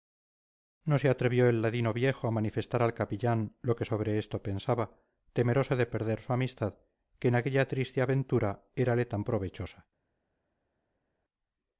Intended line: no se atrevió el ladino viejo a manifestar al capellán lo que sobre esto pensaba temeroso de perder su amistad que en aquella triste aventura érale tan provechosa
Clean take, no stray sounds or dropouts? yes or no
yes